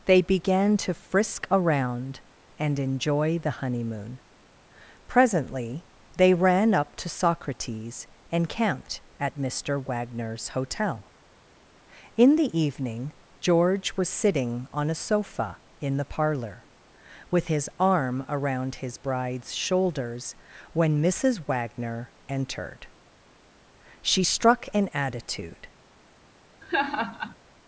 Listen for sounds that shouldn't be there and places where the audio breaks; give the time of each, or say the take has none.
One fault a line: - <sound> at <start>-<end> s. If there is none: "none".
- laugh at 26.6-27.4 s